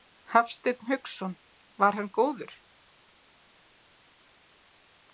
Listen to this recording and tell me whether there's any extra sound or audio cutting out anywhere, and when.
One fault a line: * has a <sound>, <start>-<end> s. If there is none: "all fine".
all fine